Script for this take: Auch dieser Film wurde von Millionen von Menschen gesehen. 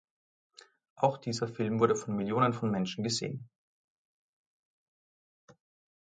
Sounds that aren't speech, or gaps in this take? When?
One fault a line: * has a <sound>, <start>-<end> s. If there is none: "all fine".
all fine